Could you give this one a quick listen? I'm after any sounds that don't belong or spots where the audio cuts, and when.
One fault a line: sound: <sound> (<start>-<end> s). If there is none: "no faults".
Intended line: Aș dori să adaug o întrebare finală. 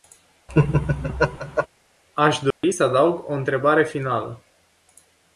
sound: laugh (0.5-1.7 s)
sound: dropout (2.5-2.6 s)